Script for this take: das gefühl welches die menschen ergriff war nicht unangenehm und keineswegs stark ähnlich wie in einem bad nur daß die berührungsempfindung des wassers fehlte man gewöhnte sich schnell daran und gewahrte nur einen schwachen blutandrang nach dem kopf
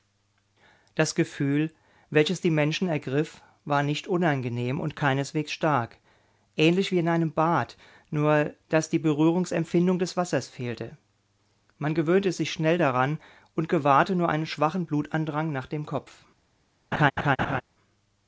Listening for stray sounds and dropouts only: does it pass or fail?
fail